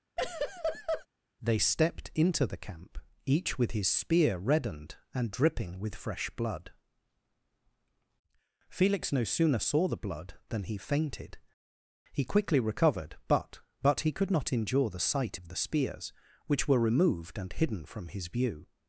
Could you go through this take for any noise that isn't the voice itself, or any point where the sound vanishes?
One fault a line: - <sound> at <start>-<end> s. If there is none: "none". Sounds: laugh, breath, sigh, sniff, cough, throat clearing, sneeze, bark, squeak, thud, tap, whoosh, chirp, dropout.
- laugh at 0.2-1.1 s